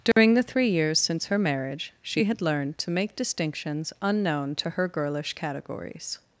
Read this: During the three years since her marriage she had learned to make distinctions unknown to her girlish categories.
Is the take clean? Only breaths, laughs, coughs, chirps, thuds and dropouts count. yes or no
no